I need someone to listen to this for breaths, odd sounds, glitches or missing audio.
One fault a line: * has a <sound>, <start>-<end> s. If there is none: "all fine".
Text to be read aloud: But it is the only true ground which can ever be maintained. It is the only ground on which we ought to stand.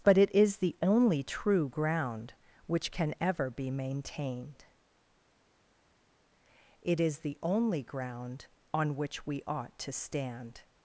all fine